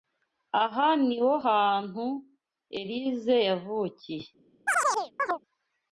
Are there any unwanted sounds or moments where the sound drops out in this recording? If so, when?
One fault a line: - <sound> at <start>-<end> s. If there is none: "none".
- chirp at 4.7-5.4 s